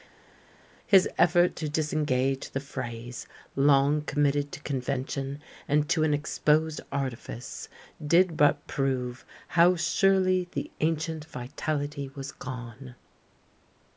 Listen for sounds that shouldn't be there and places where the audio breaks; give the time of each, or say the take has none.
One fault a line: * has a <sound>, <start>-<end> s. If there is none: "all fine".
all fine